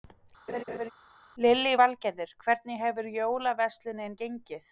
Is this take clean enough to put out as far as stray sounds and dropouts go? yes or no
no